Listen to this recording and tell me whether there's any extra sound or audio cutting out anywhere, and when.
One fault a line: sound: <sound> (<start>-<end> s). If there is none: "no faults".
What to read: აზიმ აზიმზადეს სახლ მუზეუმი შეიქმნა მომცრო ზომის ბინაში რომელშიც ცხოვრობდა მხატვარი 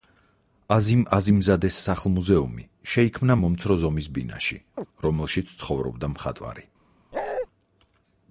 sound: chirp (4.8-4.9 s)
sound: bark (7.1-7.5 s)